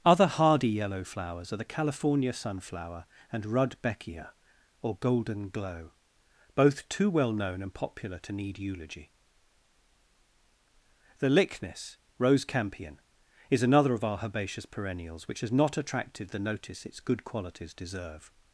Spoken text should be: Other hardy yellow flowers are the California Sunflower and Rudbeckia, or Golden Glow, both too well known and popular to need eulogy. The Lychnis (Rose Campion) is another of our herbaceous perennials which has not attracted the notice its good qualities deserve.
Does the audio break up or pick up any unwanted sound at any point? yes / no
no